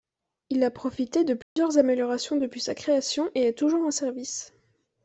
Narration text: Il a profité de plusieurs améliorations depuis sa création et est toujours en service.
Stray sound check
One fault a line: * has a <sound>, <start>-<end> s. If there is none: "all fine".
* has a dropout, 1.4-1.6 s